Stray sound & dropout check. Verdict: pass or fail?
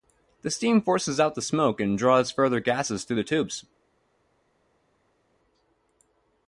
pass